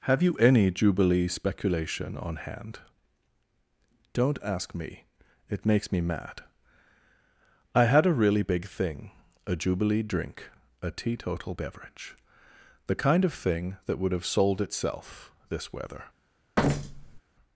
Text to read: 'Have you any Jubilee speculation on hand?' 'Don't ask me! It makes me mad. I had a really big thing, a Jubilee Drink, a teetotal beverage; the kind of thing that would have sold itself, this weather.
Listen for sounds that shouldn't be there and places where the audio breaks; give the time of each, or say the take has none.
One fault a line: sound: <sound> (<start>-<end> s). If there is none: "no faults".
sound: thud (16.6-17.2 s)